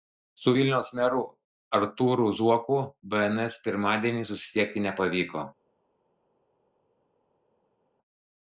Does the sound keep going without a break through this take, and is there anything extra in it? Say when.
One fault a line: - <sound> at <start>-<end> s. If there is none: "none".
none